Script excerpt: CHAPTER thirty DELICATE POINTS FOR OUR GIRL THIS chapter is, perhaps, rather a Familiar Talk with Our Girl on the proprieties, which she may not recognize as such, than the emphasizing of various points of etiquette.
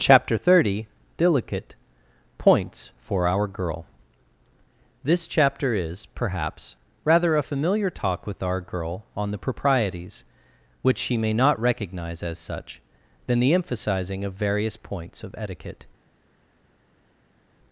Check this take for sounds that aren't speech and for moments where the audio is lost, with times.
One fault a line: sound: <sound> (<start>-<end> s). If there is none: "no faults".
no faults